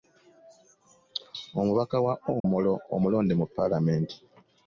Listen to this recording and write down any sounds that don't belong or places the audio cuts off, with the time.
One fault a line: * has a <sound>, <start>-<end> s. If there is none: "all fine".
* has a dropout, 2.4-2.4 s